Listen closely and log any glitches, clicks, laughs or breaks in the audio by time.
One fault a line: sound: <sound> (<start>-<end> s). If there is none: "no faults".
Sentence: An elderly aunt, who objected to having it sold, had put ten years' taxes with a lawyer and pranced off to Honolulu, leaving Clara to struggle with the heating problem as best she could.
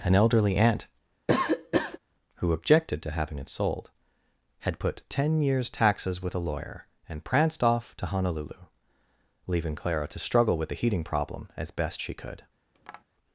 sound: cough (1.3-2.0 s)
sound: tap (12.7-13.0 s)